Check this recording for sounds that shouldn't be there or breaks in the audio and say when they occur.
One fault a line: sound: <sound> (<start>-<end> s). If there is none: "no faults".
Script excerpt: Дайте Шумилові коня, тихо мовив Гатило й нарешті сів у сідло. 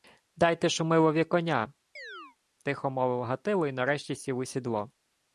sound: chirp (2.0-2.4 s)